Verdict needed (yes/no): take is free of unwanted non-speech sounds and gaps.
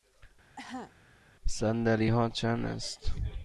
no